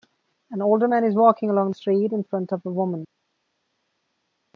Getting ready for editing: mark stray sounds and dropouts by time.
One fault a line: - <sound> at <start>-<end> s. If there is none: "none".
none